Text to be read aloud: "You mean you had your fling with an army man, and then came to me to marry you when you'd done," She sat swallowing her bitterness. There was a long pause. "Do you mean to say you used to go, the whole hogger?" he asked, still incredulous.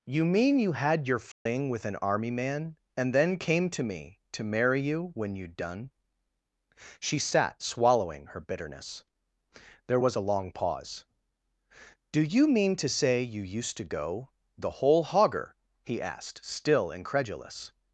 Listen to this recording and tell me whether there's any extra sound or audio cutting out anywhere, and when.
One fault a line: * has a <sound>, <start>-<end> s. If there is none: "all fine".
* has a dropout, 1.3-1.5 s